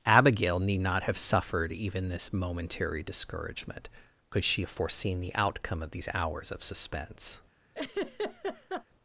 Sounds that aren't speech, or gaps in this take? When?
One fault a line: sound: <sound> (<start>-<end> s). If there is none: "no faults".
sound: laugh (7.7-8.9 s)